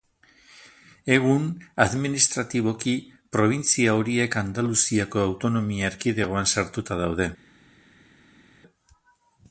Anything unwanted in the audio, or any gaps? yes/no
no